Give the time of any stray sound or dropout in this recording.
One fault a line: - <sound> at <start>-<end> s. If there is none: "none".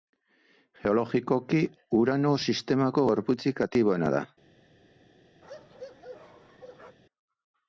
- bark at 5.4-7.0 s